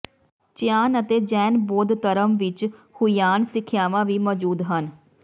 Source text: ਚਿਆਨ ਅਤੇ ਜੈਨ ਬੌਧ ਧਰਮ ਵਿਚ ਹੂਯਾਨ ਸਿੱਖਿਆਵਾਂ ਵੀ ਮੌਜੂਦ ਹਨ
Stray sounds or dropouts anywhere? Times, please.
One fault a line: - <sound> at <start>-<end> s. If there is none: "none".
none